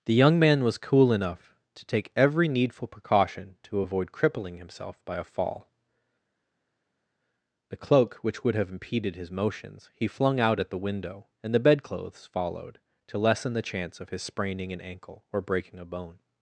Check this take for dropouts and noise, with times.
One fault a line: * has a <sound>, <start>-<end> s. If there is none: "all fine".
all fine